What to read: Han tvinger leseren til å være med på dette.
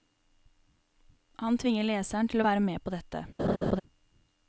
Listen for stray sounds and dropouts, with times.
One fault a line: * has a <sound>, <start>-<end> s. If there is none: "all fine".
* has a laugh, 3.4-3.8 s